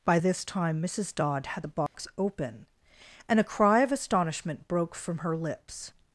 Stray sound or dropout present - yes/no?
yes